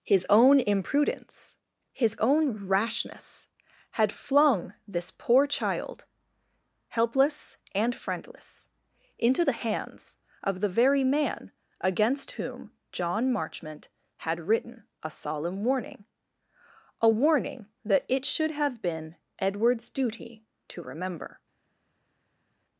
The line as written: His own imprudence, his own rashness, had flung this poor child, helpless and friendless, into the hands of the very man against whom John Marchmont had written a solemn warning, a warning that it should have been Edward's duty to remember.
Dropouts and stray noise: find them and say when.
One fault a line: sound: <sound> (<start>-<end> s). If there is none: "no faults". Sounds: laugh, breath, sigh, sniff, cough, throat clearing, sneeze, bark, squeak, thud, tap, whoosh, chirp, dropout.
no faults